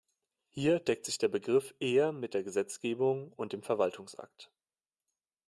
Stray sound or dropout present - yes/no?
no